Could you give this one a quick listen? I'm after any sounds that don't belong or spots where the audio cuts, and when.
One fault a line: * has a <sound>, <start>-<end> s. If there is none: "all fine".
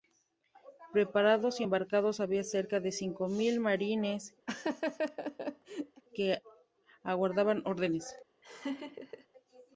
* has a laugh, 4.5-6.0 s
* has a laugh, 8.4-9.3 s